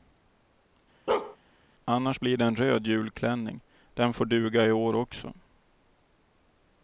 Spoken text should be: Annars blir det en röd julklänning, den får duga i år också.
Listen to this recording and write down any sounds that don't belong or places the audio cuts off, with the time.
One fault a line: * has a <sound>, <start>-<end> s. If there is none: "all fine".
* has a bark, 1.1-1.4 s